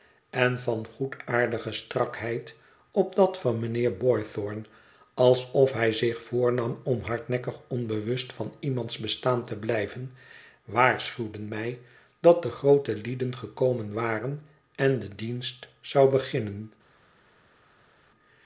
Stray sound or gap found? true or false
false